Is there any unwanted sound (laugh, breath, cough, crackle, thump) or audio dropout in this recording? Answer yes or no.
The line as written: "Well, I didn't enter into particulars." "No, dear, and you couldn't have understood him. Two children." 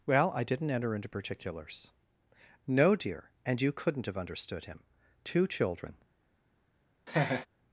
yes